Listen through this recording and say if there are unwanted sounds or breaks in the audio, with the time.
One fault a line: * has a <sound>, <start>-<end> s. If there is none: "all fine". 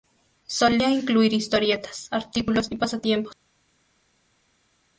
all fine